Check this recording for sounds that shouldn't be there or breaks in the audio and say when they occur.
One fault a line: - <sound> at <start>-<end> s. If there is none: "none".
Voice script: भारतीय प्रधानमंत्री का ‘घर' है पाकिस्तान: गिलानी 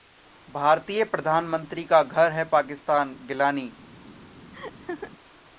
- laugh at 4.5-5.1 s